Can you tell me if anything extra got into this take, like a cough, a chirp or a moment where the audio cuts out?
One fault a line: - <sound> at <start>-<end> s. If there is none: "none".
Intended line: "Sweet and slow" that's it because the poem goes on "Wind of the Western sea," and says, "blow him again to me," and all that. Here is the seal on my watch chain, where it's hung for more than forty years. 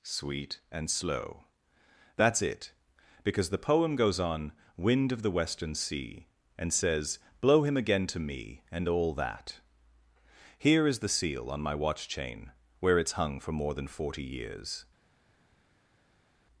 none